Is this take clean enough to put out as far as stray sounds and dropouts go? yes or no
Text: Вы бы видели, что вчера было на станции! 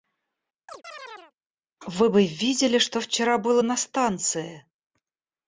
no